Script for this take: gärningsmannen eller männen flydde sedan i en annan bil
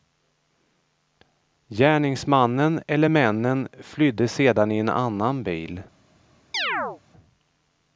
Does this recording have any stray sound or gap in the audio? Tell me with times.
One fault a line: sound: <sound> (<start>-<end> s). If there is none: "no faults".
sound: chirp (6.5-7.0 s)